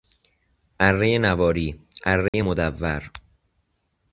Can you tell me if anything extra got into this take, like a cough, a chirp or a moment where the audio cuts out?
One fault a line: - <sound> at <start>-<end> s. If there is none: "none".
- dropout at 2.3-2.3 s